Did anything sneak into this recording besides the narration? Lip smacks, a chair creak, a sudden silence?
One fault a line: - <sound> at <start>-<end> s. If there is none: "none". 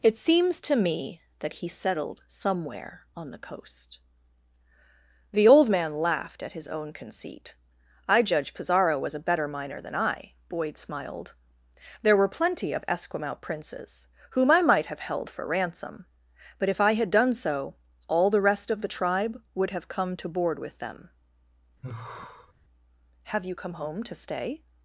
- sigh at 21.8-22.5 s